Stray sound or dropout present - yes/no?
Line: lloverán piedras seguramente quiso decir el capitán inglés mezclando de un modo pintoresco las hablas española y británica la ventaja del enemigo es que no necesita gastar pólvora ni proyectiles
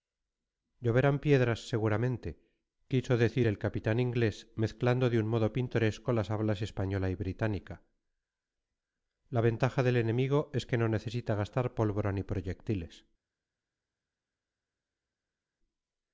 no